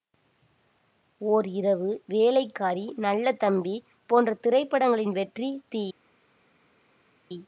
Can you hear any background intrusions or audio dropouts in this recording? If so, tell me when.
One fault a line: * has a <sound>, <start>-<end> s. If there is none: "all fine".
all fine